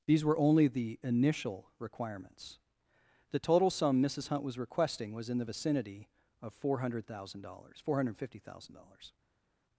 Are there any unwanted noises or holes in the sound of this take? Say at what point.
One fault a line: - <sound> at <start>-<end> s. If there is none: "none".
none